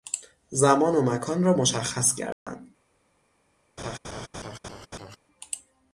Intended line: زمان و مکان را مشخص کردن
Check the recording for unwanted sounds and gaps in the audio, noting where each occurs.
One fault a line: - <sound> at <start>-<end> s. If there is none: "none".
- dropout at 2.3-2.5 s
- laugh at 3.8-5.2 s